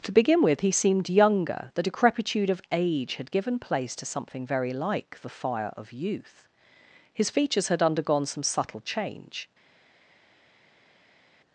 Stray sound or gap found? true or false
false